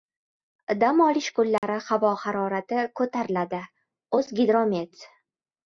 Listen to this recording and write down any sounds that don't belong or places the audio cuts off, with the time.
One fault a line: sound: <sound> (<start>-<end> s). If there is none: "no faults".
sound: dropout (1.6-1.6 s)